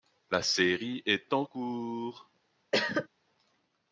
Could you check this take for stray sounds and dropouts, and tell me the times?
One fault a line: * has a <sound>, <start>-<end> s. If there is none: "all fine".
* has a cough, 2.7-3.1 s